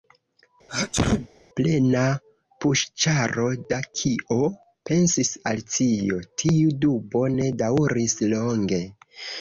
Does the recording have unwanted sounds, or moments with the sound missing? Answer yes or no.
yes